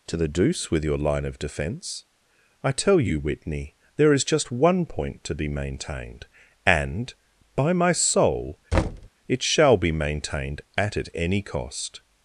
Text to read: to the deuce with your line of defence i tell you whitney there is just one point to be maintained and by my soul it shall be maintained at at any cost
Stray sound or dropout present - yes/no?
yes